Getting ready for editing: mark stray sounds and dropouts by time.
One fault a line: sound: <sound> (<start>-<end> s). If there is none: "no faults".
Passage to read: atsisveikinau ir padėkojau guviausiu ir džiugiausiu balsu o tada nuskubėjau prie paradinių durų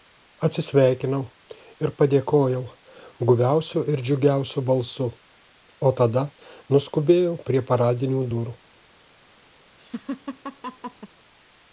sound: laugh (9.8-11.1 s)